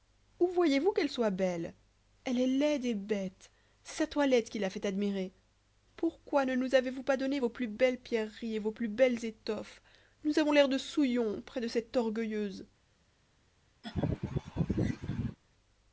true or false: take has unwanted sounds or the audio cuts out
true